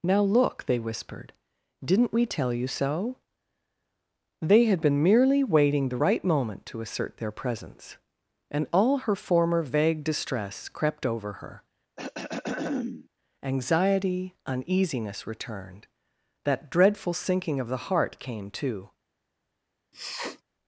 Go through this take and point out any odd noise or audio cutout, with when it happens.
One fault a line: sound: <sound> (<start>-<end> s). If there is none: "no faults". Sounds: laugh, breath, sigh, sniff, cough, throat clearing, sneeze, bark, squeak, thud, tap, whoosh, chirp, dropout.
sound: throat clearing (12.0-13.1 s)
sound: sniff (19.9-20.4 s)